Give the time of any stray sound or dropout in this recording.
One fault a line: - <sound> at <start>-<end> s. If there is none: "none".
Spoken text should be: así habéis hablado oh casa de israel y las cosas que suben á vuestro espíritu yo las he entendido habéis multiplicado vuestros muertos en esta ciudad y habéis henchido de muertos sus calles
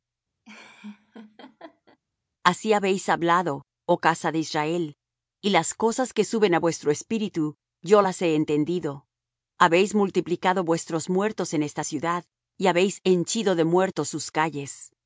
- laugh at 0.4-2.0 s